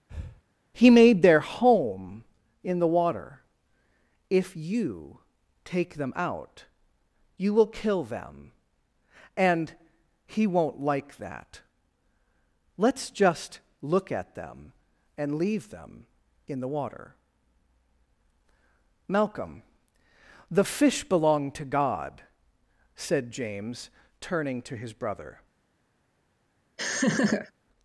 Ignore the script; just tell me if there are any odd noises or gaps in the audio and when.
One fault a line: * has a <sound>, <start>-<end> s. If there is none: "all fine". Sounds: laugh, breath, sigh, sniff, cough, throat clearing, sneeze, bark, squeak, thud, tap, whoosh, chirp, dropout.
* has a breath, 0.1-0.4 s
* has a laugh, 26.8-27.5 s